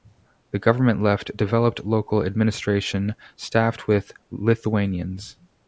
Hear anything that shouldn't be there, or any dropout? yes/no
no